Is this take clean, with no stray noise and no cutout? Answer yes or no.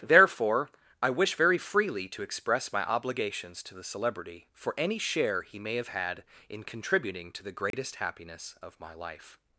no